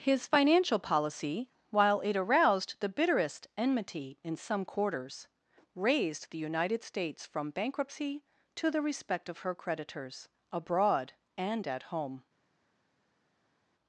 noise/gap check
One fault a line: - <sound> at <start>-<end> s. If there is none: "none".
none